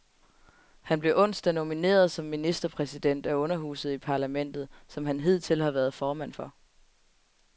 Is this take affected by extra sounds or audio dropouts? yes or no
no